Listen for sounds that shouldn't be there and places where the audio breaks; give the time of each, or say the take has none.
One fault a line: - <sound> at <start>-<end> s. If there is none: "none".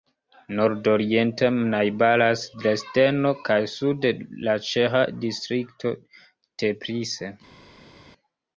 none